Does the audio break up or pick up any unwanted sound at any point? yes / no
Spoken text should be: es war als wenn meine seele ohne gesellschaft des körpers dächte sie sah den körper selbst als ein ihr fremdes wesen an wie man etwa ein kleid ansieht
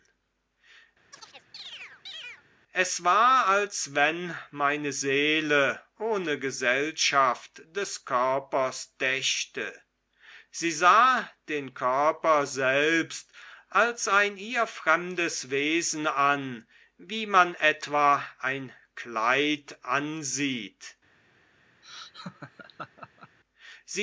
yes